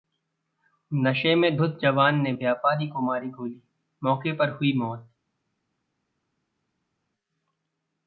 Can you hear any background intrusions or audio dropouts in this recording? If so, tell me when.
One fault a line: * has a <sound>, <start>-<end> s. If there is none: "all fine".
all fine